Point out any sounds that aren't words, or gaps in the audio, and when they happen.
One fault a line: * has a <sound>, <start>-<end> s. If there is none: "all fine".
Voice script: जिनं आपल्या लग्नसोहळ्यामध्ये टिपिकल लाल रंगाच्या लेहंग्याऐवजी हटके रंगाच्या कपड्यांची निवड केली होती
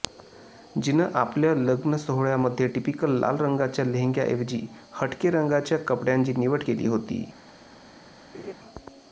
* has a laugh, 8.3-8.5 s